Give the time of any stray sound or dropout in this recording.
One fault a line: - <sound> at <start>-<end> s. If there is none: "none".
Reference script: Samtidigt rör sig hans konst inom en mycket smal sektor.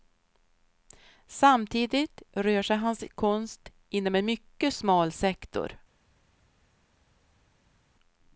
none